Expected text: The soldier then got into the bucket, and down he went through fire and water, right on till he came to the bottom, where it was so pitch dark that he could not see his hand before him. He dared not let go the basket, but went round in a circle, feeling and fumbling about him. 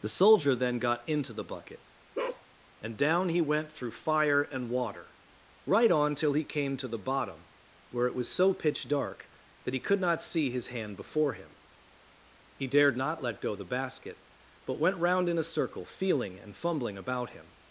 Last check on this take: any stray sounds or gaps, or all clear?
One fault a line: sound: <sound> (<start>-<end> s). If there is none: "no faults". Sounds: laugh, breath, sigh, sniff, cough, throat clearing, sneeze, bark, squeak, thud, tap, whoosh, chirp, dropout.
sound: bark (2.1-2.5 s)